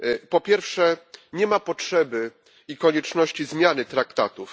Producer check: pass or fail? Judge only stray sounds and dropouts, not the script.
pass